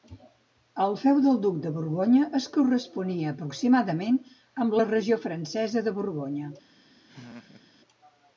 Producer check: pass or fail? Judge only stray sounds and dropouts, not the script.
fail